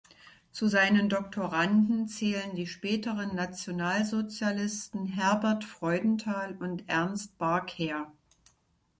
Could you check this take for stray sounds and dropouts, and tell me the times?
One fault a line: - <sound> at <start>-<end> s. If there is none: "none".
none